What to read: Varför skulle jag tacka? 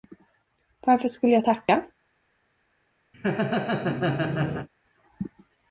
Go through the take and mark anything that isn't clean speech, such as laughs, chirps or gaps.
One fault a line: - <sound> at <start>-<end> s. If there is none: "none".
- laugh at 3.1-4.7 s